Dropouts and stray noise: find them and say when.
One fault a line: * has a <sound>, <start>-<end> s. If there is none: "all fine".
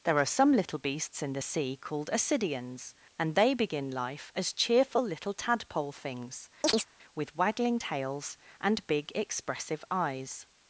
* has a chirp, 6.6-6.9 s